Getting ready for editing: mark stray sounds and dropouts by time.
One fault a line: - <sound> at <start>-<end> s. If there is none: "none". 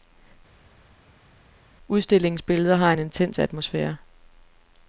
none